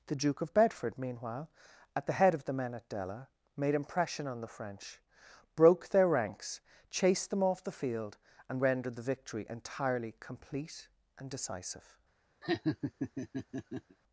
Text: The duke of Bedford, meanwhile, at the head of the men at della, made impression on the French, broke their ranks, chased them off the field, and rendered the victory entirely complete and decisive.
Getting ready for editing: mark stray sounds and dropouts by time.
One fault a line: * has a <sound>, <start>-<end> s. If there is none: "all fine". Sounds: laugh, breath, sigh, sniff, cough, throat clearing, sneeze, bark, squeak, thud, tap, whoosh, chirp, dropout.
* has a laugh, 12.4-14.0 s